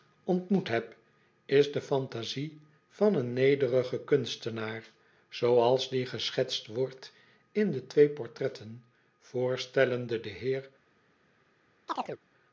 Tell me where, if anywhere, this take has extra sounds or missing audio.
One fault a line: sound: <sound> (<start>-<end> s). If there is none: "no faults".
sound: chirp (11.9-12.2 s)